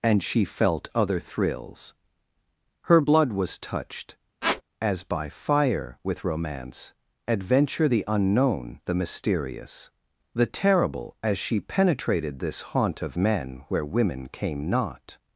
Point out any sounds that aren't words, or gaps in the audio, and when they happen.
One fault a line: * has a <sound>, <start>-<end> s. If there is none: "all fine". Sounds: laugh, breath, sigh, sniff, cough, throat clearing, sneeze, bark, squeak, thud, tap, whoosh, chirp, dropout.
* has a squeak, 4.4-4.6 s